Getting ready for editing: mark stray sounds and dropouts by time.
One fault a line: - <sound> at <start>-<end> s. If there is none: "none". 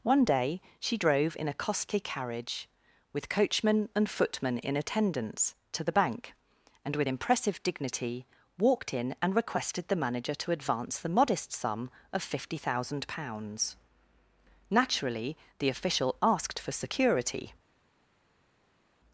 none